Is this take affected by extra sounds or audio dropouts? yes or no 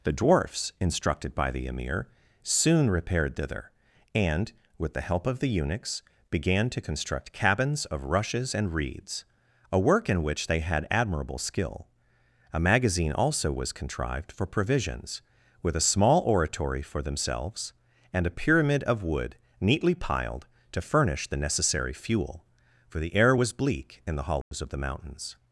yes